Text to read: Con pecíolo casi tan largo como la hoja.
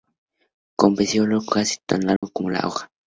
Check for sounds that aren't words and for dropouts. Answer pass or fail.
fail